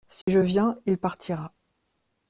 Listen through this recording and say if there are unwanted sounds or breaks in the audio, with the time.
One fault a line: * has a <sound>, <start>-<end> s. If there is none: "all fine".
* has a dropout, 0.2-0.3 s